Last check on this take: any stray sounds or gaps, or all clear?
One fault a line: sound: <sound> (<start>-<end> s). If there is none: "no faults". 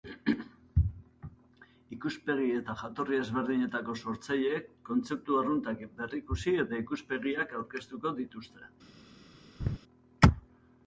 sound: laugh (9.6-9.8 s)